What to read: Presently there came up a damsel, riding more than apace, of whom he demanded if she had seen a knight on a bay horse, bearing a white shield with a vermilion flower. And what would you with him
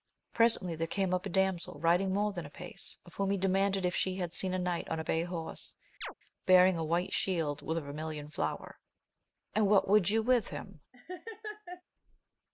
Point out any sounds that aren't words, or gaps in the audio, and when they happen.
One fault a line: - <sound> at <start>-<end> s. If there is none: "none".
- chirp at 6.0-6.1 s
- laugh at 10.9-11.8 s